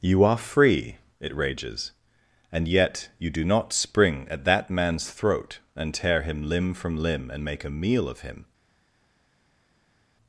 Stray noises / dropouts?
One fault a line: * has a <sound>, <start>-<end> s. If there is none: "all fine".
all fine